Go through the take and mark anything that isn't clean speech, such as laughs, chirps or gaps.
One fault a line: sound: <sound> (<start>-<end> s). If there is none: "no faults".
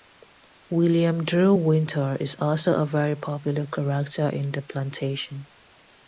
no faults